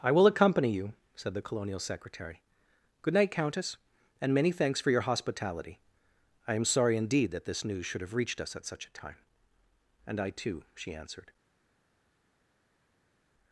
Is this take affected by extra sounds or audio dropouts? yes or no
no